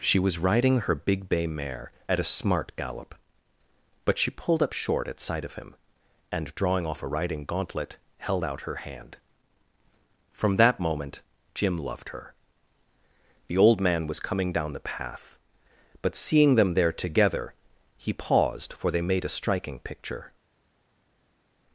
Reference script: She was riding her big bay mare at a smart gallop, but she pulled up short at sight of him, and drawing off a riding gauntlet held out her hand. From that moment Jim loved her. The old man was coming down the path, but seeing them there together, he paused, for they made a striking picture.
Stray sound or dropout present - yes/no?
no